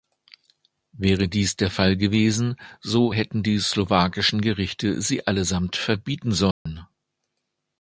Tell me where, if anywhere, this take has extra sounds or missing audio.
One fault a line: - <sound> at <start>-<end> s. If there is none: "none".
- dropout at 6.5-6.7 s